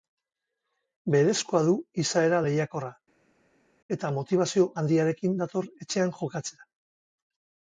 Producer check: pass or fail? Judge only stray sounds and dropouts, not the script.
pass